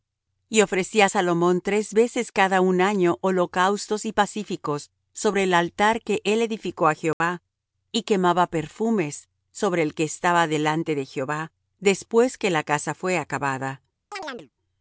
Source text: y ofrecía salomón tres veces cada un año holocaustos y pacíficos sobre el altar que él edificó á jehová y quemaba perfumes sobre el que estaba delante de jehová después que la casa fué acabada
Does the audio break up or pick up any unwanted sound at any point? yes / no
yes